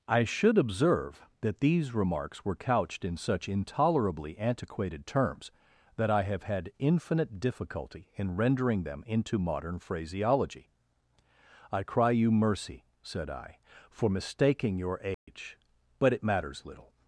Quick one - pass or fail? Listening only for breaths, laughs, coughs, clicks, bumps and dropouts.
fail